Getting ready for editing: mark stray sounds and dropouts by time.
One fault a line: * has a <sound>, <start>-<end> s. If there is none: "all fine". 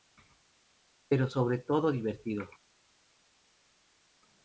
all fine